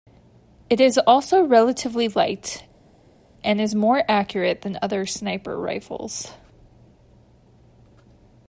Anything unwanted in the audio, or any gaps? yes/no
no